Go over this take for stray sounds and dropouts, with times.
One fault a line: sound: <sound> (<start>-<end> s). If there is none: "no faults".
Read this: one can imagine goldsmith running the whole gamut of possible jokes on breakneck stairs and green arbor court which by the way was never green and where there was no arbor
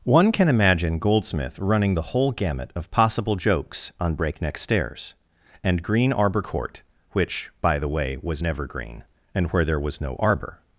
no faults